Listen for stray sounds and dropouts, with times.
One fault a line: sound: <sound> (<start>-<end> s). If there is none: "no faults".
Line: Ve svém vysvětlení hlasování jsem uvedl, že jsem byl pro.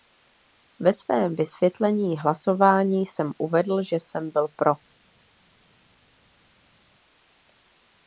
no faults